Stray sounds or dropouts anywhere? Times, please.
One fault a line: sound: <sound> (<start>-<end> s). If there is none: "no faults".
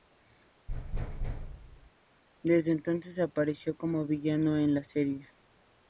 sound: thud (0.7-1.9 s)